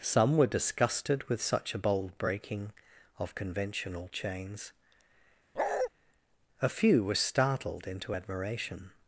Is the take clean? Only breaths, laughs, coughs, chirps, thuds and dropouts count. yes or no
no